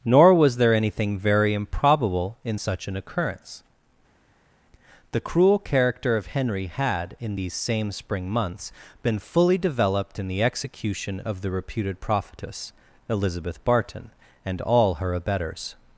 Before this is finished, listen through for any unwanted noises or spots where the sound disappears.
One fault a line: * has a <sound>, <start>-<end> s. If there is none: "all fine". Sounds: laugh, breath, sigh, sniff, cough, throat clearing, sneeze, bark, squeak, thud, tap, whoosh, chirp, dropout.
all fine